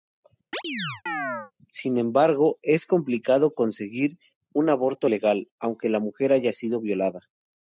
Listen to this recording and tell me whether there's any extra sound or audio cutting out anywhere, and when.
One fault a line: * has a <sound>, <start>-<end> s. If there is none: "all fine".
* has a chirp, 0.5-1.5 s